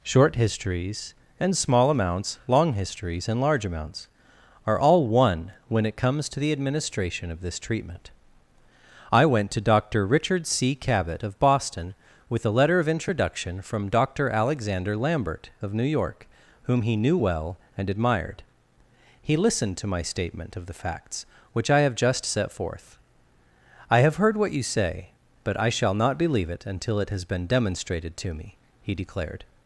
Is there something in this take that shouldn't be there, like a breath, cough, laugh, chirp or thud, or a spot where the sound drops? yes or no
no